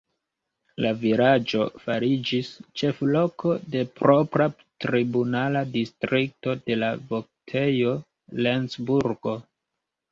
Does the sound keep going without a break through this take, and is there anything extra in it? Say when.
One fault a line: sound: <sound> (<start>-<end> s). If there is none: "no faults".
no faults